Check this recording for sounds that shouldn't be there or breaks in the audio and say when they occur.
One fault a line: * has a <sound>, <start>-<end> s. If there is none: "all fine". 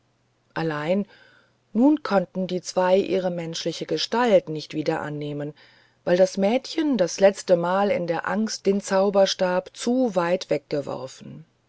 all fine